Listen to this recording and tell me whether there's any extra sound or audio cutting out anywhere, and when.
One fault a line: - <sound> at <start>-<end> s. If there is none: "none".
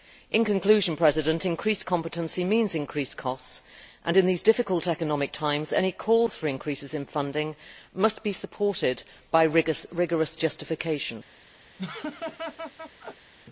- laugh at 11.8-13.3 s